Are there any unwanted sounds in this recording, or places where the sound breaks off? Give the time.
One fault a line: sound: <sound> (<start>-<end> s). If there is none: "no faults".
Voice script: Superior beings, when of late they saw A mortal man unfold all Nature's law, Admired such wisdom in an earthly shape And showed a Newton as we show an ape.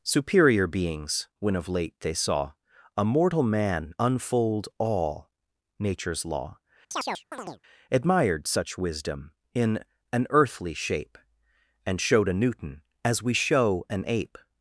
sound: chirp (6.9-7.6 s)